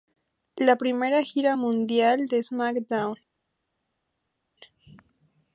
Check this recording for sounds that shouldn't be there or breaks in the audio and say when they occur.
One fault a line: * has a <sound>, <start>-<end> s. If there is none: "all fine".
all fine